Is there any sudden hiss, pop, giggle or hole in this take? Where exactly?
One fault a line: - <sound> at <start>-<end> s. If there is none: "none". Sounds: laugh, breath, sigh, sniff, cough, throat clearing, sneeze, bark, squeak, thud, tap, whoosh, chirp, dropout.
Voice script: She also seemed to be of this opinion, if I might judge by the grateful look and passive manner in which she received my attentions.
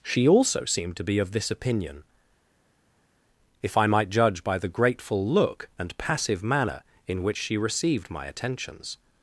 none